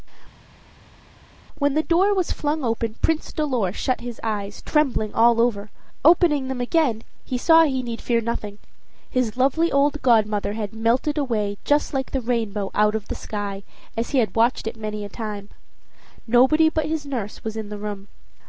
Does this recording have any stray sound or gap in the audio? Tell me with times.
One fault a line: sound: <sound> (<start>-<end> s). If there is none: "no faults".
no faults